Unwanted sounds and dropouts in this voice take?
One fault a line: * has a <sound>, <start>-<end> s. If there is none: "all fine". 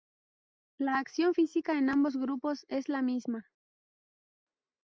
all fine